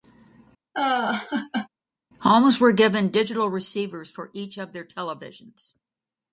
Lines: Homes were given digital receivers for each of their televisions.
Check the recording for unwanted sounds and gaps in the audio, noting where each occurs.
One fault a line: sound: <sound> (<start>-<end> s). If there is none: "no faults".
sound: laugh (0.7-1.7 s)